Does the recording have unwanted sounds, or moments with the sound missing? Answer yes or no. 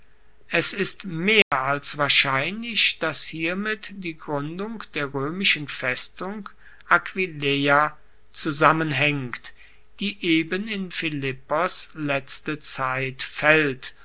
yes